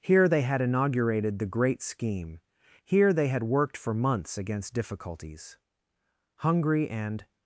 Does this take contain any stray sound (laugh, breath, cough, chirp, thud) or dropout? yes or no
no